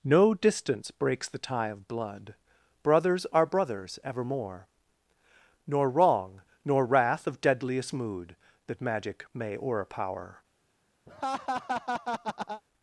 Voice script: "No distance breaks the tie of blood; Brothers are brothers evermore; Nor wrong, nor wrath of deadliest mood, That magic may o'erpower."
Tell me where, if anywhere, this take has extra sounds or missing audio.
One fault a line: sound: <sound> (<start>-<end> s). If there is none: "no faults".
sound: laugh (11.1-12.6 s)